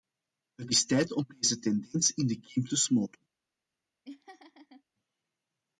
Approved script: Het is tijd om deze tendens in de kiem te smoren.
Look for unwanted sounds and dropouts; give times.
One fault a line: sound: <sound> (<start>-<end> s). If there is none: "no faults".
sound: laugh (4.0-4.8 s)